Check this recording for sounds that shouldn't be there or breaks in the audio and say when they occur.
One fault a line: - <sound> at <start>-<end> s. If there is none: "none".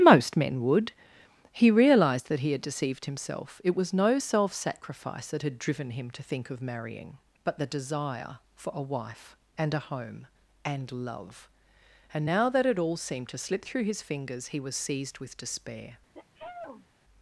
- sneeze at 16.1-16.9 s